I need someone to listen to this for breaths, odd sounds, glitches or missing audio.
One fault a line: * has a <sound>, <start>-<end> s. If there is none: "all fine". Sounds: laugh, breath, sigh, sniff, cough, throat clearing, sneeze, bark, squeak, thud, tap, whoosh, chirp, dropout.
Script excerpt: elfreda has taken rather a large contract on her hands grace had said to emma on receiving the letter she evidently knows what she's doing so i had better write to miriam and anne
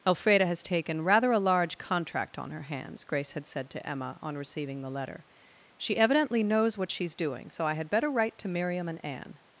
all fine